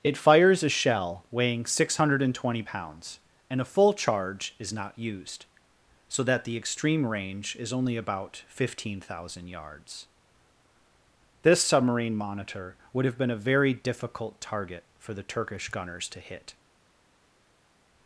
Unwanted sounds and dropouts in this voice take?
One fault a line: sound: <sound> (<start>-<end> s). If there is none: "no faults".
no faults